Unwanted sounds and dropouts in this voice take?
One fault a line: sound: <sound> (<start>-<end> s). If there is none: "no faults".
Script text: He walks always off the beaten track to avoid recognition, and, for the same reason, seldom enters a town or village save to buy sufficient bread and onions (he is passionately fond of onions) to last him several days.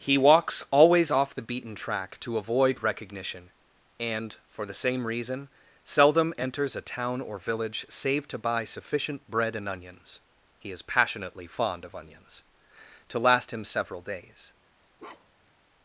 sound: bark (15.0-15.6 s)